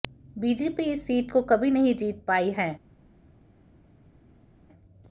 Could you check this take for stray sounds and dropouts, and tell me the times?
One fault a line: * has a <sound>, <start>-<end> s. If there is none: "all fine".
all fine